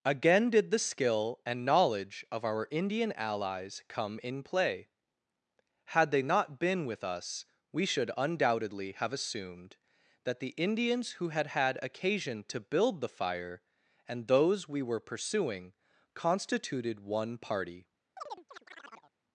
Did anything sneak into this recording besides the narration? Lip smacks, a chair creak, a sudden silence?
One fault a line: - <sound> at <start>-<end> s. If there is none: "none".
- chirp at 18.2-19.1 s